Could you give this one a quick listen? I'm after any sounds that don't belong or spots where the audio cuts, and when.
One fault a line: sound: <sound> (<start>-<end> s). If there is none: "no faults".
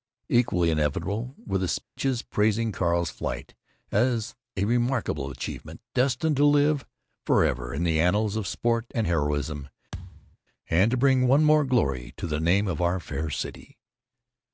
sound: dropout (1.8-2.0 s)
sound: thud (9.9-10.4 s)